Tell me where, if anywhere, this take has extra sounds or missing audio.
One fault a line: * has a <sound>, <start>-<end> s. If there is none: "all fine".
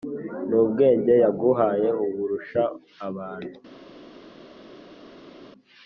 all fine